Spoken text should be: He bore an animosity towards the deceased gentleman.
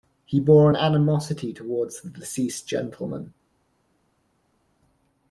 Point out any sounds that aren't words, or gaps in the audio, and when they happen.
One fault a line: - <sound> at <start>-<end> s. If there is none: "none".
none